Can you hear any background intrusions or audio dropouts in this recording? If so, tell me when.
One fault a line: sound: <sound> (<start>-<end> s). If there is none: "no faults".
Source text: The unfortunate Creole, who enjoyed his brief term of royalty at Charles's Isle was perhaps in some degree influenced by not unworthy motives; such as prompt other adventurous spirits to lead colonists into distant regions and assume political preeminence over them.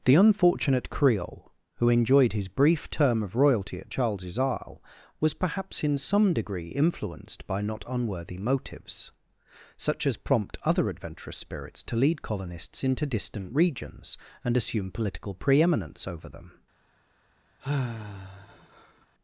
sound: sigh (17.6-19.1 s)